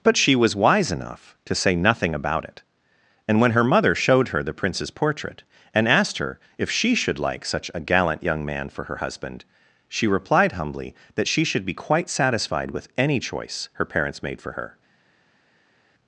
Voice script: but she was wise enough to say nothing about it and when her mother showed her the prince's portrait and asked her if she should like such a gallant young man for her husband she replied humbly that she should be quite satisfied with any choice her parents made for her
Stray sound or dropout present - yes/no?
no